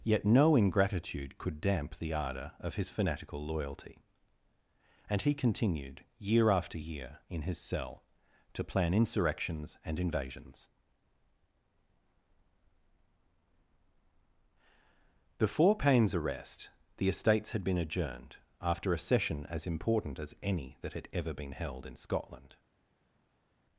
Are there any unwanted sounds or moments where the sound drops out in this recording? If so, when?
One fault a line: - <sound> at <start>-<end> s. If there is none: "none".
none